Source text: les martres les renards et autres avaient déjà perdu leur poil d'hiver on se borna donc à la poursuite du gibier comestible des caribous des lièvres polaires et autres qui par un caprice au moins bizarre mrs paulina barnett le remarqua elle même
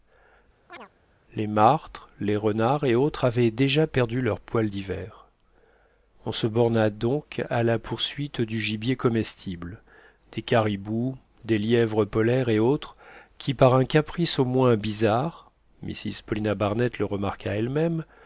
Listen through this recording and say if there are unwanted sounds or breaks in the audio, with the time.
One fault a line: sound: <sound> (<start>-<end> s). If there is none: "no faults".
sound: chirp (0.7-0.9 s)